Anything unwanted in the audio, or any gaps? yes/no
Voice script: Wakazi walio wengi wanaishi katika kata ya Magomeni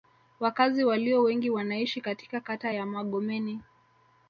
no